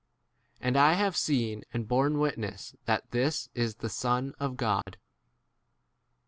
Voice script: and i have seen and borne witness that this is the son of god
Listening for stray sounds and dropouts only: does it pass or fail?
fail